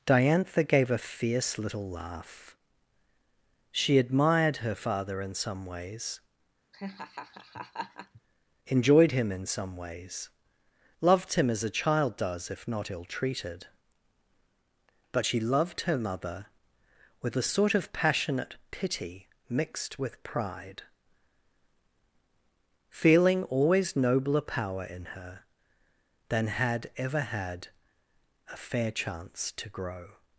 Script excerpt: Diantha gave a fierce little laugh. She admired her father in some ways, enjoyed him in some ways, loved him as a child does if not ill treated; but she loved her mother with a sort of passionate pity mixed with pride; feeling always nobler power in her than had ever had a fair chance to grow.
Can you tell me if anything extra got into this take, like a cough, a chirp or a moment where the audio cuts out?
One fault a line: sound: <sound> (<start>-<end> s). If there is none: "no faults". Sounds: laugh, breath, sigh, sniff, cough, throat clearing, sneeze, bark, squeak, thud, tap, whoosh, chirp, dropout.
sound: laugh (6.7-8.2 s)